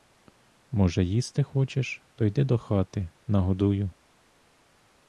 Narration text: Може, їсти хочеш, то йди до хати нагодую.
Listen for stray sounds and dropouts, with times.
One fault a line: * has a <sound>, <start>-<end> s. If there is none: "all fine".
all fine